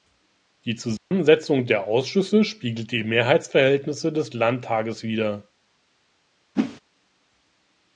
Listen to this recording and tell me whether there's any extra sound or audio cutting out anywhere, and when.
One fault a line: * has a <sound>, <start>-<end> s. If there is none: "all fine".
* has a dropout, 1.0-1.1 s
* has a whoosh, 6.6-6.8 s